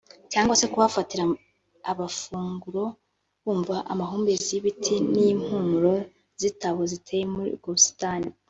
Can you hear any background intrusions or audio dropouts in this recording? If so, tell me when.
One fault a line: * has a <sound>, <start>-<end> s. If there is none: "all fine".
all fine